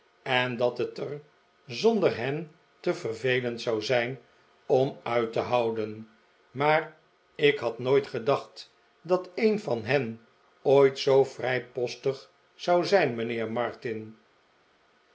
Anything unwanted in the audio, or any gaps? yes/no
no